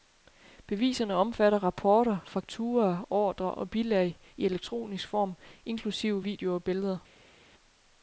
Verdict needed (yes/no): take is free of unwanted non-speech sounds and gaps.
yes